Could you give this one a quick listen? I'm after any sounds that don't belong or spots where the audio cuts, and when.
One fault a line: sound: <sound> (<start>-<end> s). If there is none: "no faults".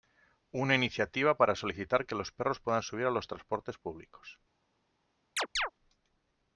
sound: chirp (5.4-5.7 s)